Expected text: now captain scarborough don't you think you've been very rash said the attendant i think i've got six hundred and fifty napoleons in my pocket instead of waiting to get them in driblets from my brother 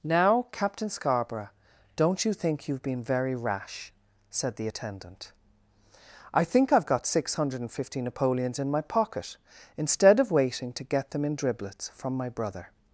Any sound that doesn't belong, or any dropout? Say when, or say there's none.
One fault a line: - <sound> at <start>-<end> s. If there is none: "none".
none